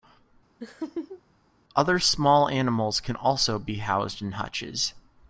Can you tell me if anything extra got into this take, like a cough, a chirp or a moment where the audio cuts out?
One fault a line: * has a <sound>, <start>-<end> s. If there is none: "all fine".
* has a laugh, 0.6-1.2 s